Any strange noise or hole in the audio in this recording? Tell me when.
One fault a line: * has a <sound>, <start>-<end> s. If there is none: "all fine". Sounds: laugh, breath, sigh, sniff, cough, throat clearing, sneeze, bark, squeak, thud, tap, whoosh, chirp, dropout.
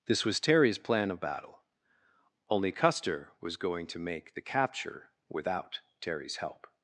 all fine